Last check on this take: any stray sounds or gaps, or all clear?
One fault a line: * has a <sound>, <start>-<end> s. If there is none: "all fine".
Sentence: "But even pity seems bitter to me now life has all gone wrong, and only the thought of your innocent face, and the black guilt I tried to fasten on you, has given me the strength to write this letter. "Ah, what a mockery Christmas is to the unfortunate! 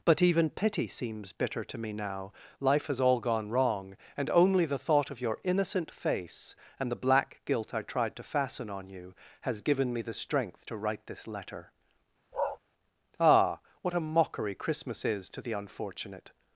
* has a bark, 12.3-12.6 s